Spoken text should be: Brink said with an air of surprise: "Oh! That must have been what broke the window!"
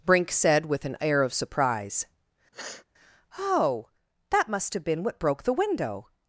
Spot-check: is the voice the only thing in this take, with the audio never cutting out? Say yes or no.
no